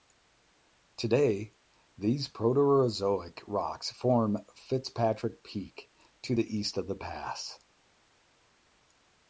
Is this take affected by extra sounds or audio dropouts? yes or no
no